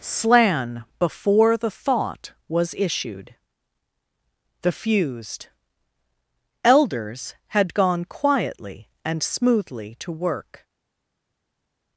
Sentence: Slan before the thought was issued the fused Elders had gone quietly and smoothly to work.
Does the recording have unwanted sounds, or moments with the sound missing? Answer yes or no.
no